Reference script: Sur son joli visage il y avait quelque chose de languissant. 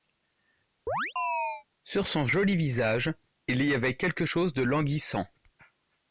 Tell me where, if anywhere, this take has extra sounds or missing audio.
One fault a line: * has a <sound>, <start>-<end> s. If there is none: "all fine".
* has a chirp, 0.9-1.6 s